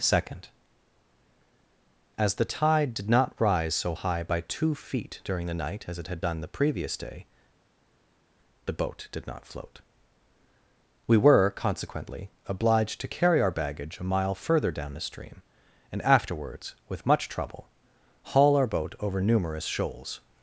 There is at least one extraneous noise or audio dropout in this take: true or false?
false